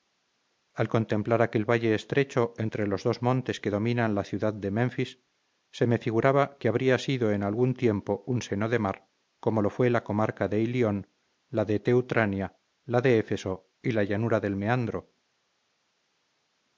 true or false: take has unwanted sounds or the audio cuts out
false